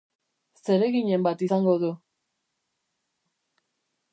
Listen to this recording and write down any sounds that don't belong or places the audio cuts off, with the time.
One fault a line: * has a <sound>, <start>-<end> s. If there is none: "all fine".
all fine